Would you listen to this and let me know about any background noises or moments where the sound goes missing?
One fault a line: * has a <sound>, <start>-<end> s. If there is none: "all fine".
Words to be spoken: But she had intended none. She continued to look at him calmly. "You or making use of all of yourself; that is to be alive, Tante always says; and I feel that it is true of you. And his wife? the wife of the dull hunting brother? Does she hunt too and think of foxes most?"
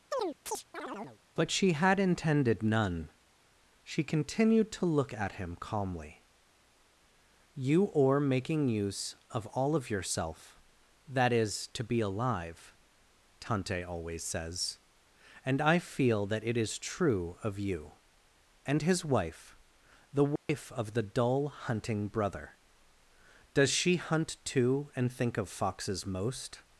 * has a chirp, 0.1-1.2 s
* has a dropout, 20.4-20.5 s